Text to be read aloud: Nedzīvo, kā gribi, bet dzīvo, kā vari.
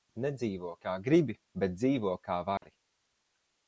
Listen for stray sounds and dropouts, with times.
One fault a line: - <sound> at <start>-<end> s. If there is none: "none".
- dropout at 2.6-2.6 s